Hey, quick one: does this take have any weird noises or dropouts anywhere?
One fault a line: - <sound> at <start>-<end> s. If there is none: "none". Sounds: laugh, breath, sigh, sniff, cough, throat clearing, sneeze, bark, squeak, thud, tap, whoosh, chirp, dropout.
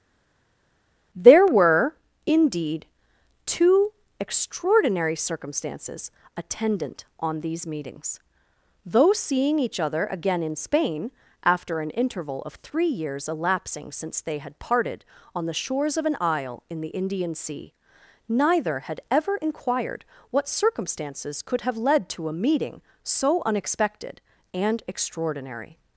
none